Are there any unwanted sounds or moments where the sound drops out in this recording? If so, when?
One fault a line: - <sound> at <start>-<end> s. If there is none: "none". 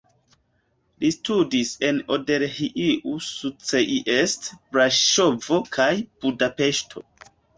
none